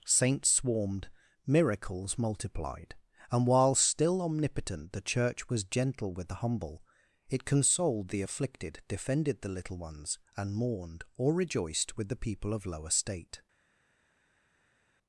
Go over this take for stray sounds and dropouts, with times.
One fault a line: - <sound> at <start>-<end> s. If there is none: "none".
none